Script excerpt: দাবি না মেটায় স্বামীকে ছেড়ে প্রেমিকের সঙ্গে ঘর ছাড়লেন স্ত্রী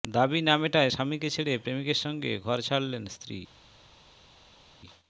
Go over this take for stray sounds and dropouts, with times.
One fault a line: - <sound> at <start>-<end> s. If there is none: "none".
none